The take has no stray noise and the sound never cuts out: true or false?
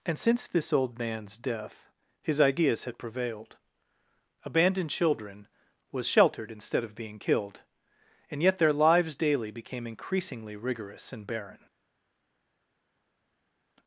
true